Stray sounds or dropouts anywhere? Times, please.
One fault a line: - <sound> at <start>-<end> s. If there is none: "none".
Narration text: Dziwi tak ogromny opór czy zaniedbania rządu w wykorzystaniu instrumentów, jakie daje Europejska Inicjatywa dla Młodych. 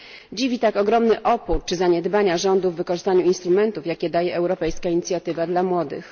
none